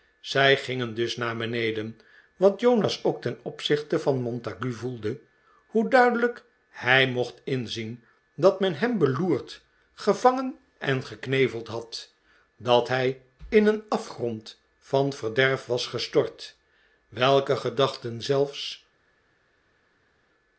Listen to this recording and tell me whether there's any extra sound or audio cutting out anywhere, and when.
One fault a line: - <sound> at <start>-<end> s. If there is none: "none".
none